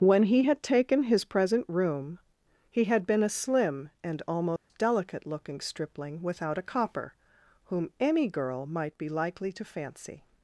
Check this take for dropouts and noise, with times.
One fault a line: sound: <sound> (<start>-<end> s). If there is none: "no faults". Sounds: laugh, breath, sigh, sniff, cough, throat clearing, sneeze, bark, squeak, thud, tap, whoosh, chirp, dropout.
sound: dropout (4.6-4.7 s)